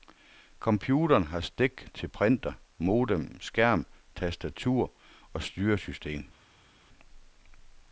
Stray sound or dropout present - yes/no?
no